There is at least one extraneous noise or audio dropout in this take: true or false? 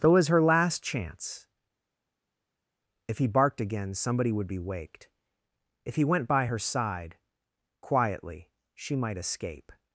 false